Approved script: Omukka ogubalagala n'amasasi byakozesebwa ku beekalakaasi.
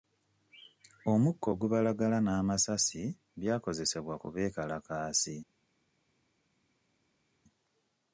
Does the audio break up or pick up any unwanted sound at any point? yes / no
no